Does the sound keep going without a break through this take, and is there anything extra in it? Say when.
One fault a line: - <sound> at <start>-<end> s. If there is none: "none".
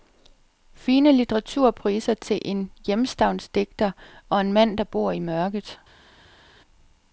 none